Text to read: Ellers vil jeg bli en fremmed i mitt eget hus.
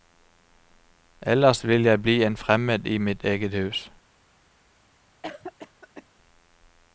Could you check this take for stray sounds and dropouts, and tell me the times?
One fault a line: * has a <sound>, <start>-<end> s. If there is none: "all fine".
* has a cough, 5.2-6.0 s